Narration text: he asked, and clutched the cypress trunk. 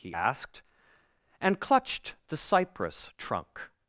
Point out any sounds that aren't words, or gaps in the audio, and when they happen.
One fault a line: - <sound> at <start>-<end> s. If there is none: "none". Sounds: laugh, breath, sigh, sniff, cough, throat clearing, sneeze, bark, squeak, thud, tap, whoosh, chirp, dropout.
none